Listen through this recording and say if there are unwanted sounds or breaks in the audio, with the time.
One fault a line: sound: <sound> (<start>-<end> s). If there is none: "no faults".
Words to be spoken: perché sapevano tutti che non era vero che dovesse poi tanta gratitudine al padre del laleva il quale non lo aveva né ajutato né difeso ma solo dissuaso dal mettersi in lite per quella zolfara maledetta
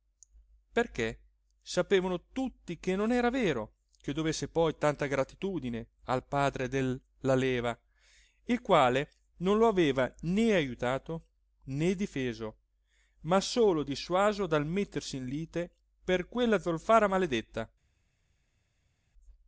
no faults